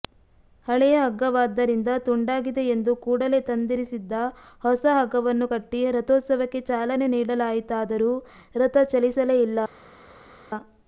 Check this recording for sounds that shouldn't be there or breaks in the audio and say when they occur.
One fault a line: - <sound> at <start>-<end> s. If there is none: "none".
none